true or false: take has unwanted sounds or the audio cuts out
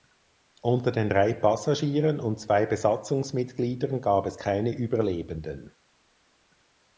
false